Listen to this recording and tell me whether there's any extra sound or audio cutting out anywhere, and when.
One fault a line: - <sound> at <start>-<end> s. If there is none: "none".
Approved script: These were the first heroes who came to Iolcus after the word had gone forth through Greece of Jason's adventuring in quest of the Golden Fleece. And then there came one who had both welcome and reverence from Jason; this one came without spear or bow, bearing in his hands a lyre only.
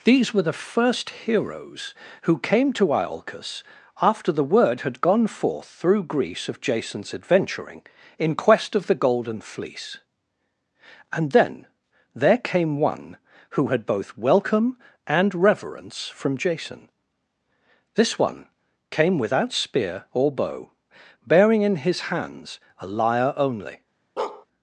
- bark at 24.2-24.5 s